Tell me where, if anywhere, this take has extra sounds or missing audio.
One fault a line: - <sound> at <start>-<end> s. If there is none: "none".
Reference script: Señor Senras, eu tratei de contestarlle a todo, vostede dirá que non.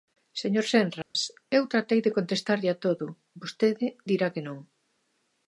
- dropout at 1.0-1.2 s